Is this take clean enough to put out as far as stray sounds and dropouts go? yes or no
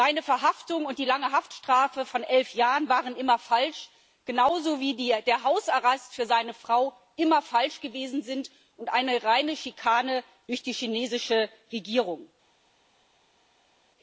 yes